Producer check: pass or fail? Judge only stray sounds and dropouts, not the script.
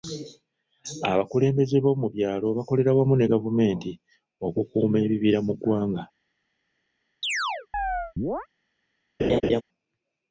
fail